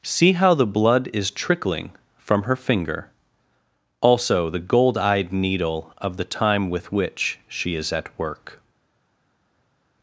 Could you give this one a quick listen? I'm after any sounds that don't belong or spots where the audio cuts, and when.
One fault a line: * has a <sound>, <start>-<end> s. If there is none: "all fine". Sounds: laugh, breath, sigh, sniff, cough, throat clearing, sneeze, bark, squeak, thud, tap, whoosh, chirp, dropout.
all fine